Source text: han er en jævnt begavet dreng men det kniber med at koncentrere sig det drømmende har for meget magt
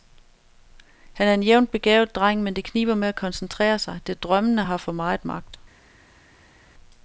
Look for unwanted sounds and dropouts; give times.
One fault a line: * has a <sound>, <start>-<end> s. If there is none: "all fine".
all fine